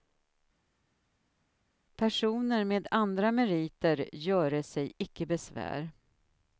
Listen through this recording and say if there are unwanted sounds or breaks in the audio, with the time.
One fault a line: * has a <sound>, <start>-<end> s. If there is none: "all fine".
all fine